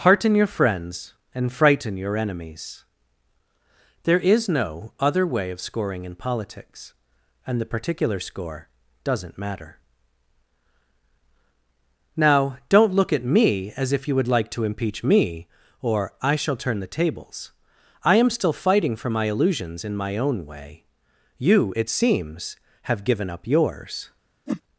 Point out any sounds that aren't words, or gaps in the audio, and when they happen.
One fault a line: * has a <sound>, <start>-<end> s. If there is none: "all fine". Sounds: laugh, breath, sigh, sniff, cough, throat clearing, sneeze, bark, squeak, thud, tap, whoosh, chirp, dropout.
* has a whoosh, 24.5-24.6 s